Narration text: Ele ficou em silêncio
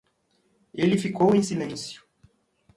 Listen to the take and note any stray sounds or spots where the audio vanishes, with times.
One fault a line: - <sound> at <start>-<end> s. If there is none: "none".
none